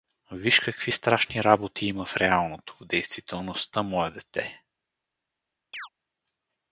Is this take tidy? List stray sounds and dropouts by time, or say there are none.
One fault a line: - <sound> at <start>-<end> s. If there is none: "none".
- chirp at 5.7-5.9 s